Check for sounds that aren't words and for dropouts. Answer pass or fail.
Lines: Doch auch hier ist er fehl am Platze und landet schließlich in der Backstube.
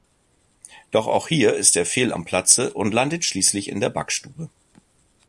pass